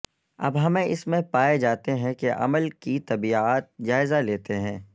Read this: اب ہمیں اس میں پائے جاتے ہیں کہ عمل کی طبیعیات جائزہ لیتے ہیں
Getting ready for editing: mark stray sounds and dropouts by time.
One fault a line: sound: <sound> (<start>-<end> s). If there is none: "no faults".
no faults